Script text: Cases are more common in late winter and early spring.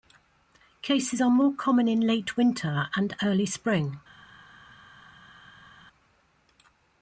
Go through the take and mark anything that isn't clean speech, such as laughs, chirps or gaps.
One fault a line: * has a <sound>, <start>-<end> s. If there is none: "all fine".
all fine